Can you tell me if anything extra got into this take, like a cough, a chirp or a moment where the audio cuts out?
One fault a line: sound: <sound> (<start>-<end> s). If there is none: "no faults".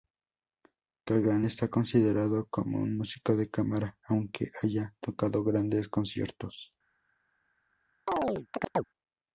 sound: chirp (8.1-8.8 s)